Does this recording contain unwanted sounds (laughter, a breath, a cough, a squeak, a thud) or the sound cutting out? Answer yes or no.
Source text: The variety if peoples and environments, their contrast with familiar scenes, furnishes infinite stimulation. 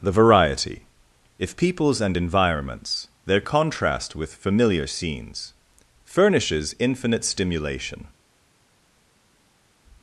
no